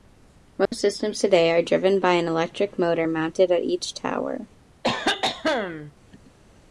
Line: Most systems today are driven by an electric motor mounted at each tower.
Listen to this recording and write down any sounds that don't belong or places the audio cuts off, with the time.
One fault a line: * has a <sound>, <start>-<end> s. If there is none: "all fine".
* has a dropout, 0.7-0.7 s
* has a cough, 4.8-5.9 s